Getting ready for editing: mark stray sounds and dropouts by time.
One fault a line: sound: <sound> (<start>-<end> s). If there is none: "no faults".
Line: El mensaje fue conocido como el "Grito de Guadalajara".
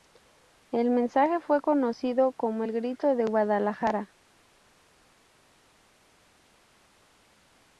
no faults